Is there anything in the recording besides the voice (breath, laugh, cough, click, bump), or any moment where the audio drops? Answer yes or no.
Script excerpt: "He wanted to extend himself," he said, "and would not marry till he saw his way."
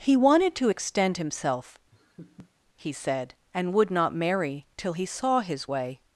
yes